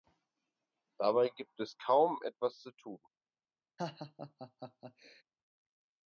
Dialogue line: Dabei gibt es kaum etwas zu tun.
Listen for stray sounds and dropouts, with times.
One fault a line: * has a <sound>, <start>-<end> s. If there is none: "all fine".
* has a laugh, 3.8-5.2 s